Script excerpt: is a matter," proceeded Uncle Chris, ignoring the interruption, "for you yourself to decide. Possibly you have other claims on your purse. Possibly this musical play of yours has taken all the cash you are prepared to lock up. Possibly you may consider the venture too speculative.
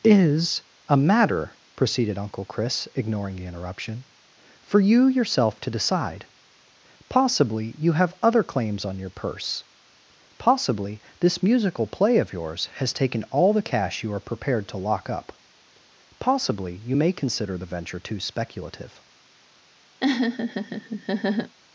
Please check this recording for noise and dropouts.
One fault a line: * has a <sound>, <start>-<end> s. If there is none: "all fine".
* has a laugh, 20.0-21.6 s